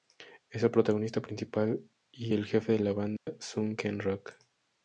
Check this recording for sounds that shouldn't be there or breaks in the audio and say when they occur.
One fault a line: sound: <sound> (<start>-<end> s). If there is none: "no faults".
sound: dropout (3.2-3.3 s)